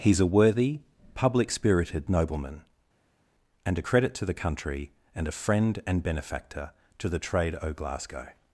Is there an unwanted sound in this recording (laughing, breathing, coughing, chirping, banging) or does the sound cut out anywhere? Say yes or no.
no